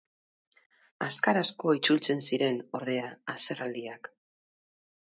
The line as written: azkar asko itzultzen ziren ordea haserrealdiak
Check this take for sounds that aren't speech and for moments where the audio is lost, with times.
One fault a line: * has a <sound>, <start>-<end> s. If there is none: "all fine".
all fine